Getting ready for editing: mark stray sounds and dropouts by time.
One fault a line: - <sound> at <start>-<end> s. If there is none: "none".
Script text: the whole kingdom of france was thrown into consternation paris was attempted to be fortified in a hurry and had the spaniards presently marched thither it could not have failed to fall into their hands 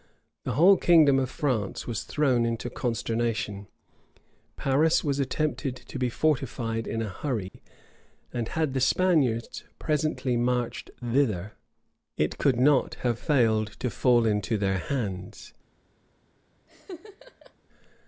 - dropout at 7.5-7.5 s
- laugh at 16.7-17.6 s